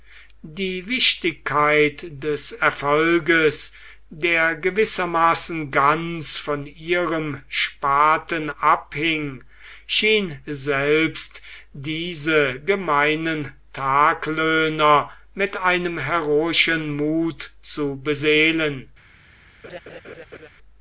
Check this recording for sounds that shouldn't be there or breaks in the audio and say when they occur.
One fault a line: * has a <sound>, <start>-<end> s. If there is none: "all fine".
* has a laugh, 19.6-20.5 s